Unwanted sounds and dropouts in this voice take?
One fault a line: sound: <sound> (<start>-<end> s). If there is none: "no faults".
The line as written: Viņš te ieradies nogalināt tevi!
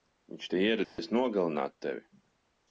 sound: dropout (0.8-1.0 s)